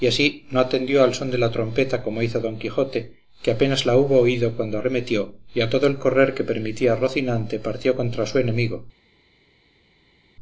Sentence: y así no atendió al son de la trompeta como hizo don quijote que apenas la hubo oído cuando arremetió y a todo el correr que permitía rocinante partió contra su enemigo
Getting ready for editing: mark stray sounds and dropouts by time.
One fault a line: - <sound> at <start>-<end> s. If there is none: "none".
none